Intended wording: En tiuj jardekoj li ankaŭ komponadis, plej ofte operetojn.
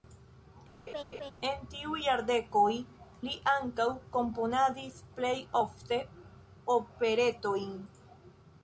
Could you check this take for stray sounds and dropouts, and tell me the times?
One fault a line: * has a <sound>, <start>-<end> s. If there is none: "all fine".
* has a laugh, 0.9-1.3 s